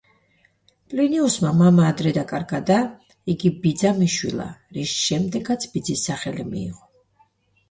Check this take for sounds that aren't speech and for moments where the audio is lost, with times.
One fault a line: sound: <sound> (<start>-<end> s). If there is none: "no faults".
no faults